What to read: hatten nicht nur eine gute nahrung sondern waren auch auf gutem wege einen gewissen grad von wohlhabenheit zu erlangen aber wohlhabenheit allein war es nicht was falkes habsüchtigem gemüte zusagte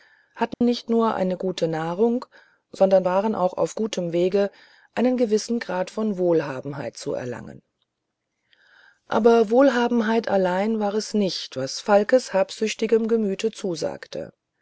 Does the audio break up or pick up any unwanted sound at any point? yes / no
yes